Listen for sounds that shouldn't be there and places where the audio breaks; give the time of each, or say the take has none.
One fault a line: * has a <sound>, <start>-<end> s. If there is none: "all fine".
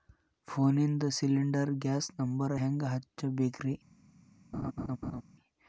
* has a laugh, 4.5-5.2 s